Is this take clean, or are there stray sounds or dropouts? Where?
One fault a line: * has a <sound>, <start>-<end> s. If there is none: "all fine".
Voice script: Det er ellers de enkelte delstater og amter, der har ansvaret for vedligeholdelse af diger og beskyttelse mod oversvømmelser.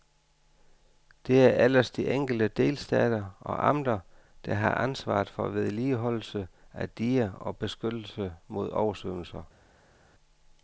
all fine